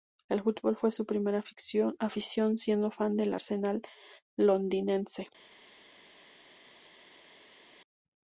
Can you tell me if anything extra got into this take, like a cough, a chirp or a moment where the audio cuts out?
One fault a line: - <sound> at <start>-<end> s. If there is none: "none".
none